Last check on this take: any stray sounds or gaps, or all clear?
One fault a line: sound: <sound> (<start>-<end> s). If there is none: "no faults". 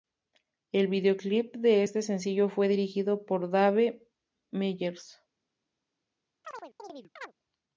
sound: chirp (6.4-7.3 s)